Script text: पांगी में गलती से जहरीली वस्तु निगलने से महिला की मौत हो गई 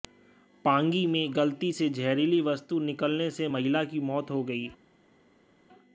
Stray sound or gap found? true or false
false